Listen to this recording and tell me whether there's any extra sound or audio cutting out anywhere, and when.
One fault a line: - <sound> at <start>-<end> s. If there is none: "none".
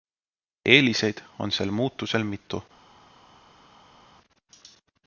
none